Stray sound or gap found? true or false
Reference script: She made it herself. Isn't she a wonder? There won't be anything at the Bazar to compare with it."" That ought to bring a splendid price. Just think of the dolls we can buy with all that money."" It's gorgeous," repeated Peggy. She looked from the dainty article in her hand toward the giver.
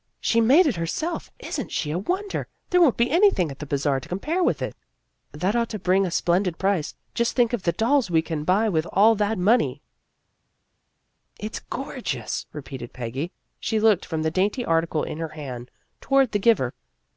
false